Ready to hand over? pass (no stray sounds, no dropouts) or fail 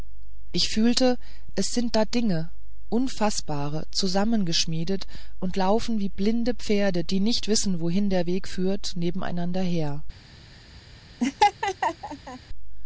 fail